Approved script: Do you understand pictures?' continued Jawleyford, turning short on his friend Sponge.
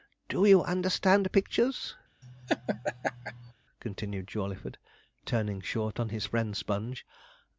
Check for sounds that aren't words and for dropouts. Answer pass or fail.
fail